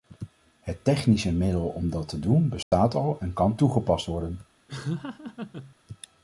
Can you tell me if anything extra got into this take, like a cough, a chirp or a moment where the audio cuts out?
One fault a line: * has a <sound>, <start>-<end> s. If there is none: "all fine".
* has a dropout, 2.6-2.7 s
* has a laugh, 4.7-5.8 s